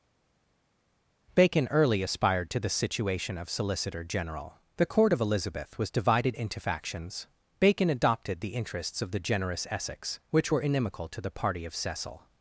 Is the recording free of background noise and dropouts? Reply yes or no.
yes